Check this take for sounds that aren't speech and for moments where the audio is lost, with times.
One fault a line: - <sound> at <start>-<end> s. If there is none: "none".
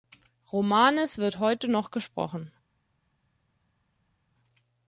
none